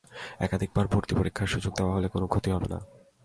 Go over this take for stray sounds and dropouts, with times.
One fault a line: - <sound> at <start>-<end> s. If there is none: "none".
none